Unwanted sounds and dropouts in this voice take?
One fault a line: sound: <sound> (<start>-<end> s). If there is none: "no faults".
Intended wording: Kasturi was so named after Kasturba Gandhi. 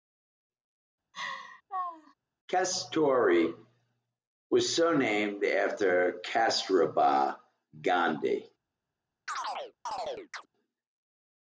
sound: laugh (1.1-2.1 s)
sound: chirp (9.3-10.5 s)